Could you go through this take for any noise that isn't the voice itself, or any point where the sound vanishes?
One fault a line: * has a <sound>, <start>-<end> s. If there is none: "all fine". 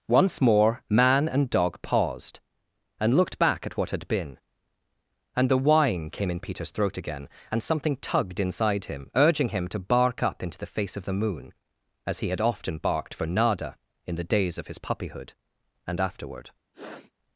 * has a sniff, 16.7-17.1 s